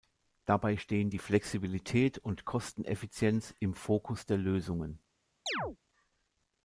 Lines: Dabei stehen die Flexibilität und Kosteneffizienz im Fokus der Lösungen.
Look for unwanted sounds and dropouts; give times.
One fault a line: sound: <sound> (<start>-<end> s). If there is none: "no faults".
sound: chirp (5.5-5.8 s)